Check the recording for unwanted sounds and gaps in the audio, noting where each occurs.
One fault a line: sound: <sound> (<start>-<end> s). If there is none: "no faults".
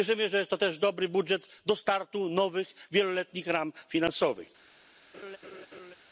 sound: laugh (5.1-5.9 s)